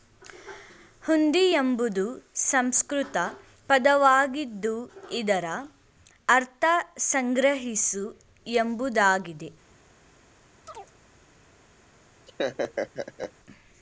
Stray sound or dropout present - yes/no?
yes